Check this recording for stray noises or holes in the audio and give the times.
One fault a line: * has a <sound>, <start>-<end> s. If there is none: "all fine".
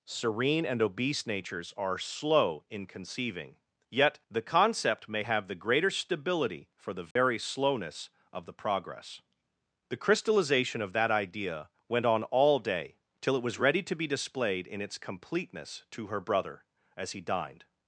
* has a dropout, 7.1-7.2 s